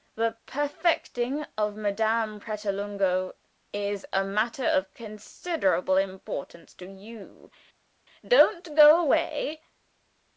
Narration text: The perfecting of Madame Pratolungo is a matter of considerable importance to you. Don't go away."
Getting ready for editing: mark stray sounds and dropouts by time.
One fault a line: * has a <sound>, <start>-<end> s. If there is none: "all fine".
all fine